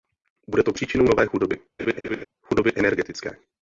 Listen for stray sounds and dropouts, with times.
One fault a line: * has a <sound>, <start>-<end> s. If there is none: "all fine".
* has a laugh, 1.8-2.2 s